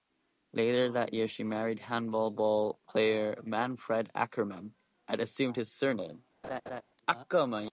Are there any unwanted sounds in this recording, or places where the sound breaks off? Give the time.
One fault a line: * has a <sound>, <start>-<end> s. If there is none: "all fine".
* has a laugh, 6.4-6.8 s